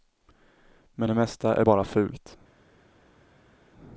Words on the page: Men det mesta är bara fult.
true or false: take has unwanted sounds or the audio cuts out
false